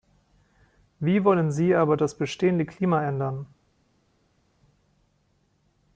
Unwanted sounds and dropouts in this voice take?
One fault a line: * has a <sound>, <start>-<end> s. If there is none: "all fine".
all fine